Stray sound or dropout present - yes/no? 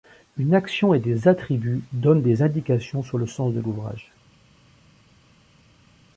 no